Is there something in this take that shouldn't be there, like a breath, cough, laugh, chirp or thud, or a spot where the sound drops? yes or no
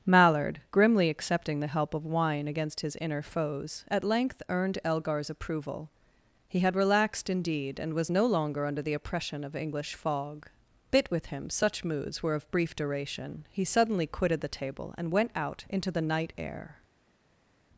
no